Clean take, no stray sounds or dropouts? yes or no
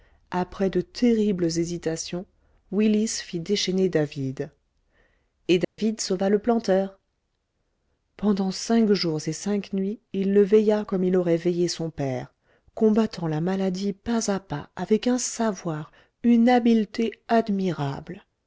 no